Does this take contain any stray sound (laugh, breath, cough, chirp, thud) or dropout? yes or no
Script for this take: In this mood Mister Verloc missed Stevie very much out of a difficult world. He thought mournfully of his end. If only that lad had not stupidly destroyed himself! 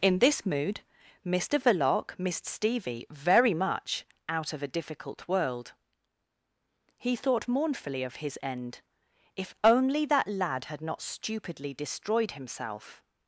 no